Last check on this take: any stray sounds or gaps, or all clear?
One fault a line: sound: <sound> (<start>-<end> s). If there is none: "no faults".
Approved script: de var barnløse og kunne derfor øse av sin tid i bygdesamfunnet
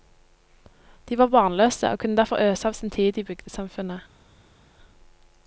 no faults